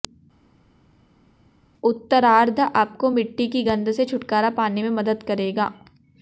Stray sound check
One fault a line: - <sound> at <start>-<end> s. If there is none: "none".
none